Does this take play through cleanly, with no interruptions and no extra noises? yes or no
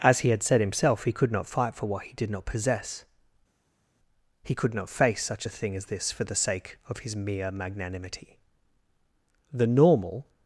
yes